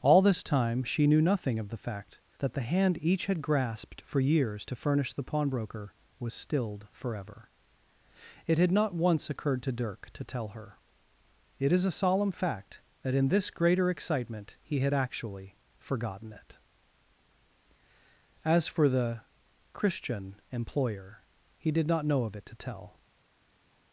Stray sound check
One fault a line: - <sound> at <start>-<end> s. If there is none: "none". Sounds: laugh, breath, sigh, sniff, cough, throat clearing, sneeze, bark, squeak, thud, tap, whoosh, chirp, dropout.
none